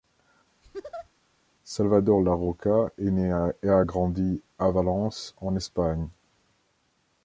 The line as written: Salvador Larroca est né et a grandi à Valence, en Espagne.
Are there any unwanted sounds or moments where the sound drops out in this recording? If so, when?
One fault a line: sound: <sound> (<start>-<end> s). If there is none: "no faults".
sound: laugh (0.6-1.1 s)